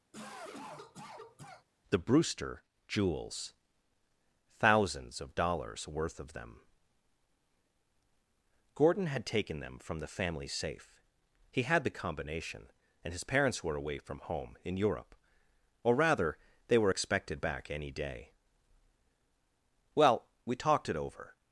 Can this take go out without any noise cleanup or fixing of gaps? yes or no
no